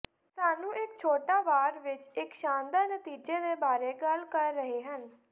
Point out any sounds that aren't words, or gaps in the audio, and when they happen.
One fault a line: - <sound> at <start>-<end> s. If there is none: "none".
none